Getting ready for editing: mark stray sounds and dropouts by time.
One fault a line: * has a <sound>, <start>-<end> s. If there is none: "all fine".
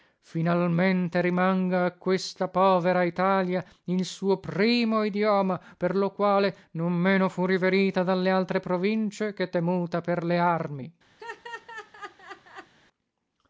* has a laugh, 11.2-12.7 s